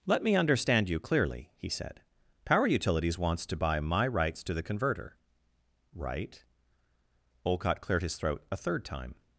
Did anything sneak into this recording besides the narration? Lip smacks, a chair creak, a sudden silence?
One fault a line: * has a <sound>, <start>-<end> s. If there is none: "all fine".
all fine